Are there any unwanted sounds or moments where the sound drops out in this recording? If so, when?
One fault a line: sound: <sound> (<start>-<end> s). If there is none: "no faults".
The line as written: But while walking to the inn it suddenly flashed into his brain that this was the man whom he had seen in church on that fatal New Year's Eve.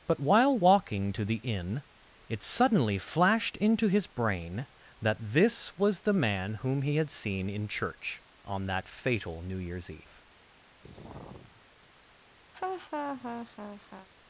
sound: sigh (10.8-11.6 s)
sound: laugh (12.5-14.1 s)